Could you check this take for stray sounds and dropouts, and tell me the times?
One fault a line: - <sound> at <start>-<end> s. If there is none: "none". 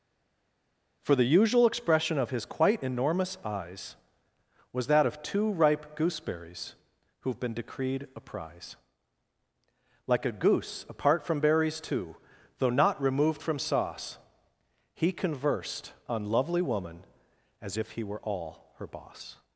none